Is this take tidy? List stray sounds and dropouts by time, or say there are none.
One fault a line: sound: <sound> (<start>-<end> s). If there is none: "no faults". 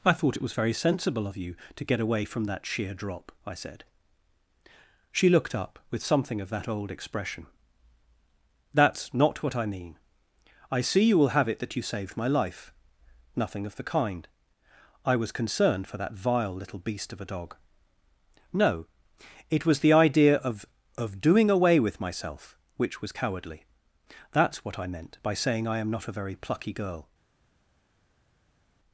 no faults